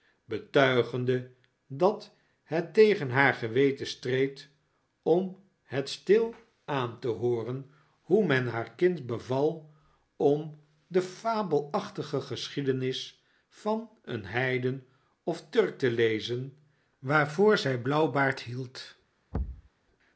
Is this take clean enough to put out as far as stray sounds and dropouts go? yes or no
no